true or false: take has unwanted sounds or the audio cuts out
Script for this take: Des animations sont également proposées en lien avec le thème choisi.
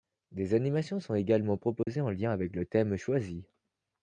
true